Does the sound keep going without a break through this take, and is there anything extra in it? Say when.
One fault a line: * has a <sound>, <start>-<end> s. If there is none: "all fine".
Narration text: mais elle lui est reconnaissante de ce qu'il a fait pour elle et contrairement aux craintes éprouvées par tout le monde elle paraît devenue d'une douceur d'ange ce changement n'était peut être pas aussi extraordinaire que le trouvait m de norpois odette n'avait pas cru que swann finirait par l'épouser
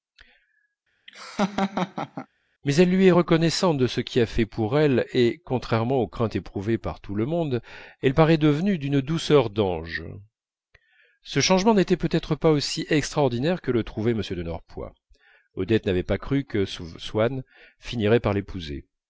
* has a laugh, 1.1-2.3 s